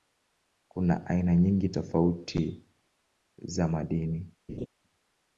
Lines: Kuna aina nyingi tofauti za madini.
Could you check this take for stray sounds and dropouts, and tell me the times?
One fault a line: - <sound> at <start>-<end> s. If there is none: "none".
- laugh at 4.5-4.7 s